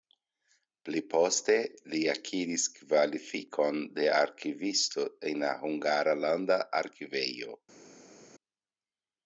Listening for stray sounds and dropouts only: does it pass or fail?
pass